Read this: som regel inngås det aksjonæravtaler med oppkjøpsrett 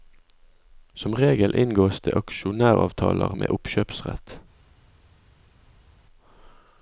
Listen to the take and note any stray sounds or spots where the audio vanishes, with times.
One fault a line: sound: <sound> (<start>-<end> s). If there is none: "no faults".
no faults